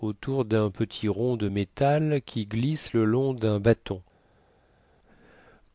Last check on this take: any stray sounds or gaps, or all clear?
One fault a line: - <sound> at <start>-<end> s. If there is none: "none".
none